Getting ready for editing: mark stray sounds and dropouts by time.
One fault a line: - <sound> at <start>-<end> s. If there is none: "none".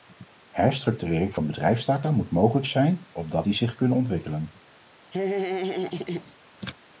- laugh at 5.1-6.4 s